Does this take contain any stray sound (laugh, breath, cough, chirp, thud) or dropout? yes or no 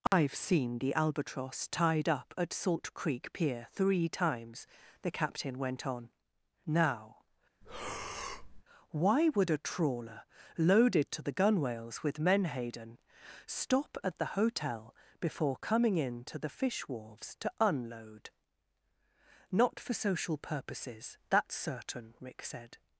yes